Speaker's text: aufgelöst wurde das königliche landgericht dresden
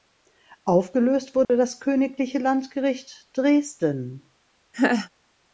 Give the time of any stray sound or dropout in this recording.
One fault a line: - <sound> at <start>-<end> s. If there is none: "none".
- dropout at 1.4-1.5 s
- laugh at 4.7-5.1 s